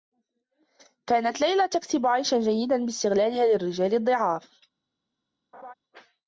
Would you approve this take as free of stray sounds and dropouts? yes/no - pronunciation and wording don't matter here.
no